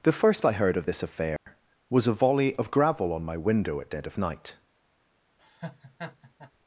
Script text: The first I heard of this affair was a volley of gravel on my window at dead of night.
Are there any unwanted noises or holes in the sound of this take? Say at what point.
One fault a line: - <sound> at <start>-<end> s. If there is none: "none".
- dropout at 1.4-1.5 s
- laugh at 5.4-6.5 s